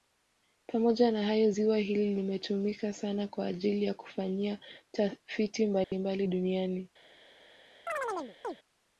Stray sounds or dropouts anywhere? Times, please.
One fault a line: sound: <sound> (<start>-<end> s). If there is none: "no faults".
sound: dropout (5.8-5.9 s)
sound: chirp (7.9-8.6 s)